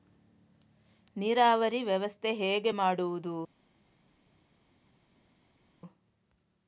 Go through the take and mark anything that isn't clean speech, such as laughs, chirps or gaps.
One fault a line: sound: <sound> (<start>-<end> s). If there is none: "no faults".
no faults